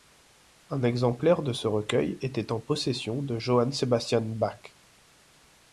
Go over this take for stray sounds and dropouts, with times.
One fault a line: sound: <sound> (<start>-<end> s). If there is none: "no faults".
no faults